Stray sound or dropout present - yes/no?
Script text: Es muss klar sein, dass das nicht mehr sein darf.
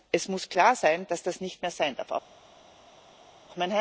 no